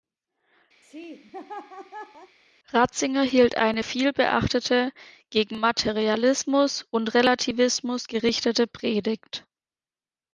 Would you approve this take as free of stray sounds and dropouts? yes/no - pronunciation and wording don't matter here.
no